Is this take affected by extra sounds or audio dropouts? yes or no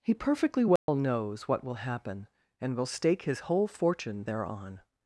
yes